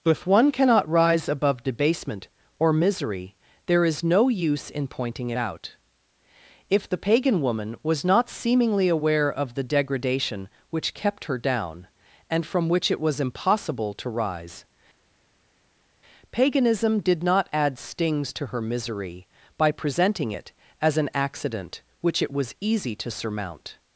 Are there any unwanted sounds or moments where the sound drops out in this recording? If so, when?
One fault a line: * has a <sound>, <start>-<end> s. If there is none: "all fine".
all fine